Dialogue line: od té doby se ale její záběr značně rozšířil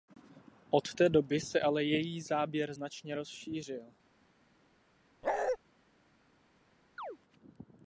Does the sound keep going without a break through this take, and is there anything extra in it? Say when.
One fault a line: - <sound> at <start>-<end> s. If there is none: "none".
- bark at 5.2-5.6 s
- chirp at 7.0-7.2 s